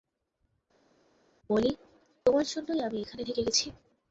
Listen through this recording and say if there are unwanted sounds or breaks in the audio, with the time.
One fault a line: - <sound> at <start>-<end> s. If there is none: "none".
none